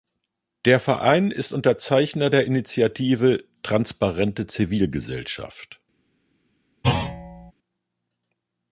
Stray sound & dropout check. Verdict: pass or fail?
fail